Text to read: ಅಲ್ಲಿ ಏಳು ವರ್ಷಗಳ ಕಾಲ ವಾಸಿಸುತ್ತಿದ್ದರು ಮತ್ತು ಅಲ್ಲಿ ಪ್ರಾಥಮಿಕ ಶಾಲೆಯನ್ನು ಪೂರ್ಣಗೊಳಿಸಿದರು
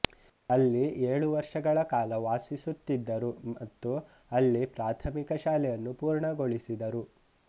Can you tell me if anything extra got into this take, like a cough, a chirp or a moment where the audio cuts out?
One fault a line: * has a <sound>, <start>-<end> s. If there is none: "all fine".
all fine